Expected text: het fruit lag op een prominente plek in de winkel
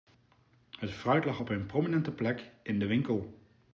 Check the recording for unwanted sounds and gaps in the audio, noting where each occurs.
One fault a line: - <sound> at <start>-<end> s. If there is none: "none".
none